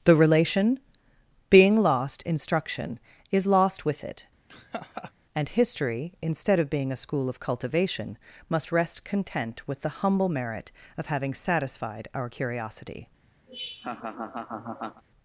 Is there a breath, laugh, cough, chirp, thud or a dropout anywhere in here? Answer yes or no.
yes